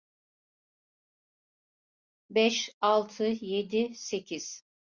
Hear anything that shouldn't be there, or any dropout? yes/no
no